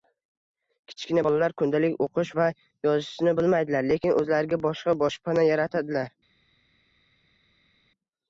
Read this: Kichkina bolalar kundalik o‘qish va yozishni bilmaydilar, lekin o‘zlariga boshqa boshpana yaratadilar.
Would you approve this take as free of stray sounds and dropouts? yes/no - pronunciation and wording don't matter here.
yes